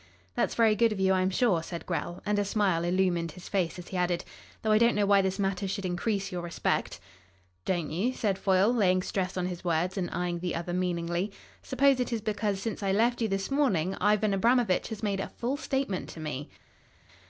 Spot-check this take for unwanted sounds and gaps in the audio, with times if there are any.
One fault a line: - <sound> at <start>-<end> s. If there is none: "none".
none